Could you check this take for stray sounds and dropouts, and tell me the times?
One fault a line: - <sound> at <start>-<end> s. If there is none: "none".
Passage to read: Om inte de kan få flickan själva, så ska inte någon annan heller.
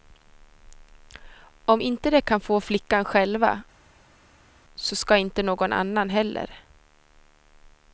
none